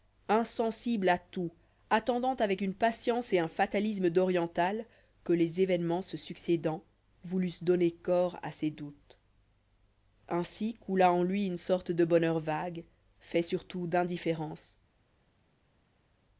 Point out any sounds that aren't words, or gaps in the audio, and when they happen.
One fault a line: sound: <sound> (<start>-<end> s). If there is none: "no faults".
no faults